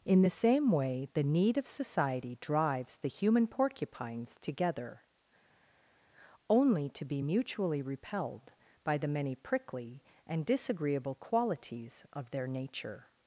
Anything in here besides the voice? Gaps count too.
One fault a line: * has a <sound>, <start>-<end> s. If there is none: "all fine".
all fine